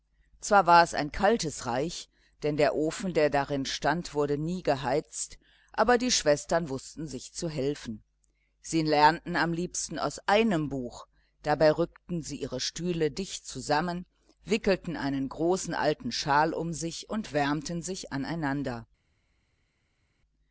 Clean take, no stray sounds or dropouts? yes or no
yes